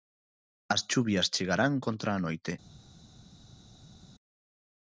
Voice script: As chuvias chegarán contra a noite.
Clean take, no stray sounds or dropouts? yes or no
yes